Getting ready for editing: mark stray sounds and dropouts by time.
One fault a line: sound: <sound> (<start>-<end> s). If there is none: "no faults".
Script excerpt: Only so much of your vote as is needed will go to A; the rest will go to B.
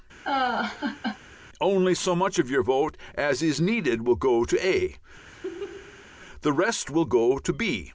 sound: laugh (0.2-1.2 s)
sound: laugh (5.3-6.1 s)